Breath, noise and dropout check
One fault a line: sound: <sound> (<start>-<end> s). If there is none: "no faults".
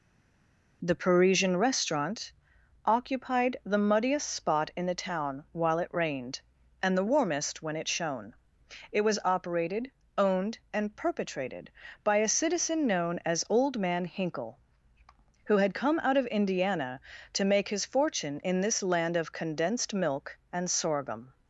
no faults